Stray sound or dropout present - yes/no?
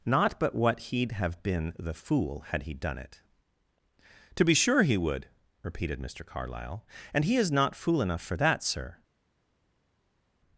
no